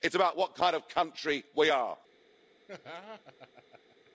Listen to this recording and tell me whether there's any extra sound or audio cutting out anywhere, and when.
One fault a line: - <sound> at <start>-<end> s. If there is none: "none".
- laugh at 2.7-4.1 s